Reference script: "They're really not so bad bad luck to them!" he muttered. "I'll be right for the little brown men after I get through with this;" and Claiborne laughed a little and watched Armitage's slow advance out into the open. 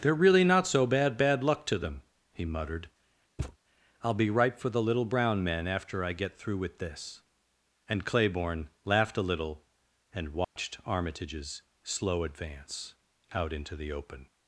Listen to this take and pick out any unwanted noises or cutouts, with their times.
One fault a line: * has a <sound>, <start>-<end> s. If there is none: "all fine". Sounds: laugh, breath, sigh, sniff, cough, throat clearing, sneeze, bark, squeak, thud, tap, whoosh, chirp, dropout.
* has a thud, 3.4-3.6 s
* has a dropout, 10.4-10.6 s